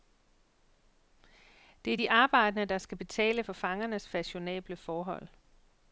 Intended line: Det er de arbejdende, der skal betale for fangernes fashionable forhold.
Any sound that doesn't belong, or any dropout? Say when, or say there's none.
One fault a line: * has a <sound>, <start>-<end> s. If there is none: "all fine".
all fine